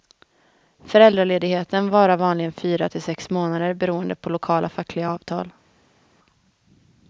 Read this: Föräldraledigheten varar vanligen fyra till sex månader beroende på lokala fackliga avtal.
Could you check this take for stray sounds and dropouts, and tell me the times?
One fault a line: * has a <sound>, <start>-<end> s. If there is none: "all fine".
all fine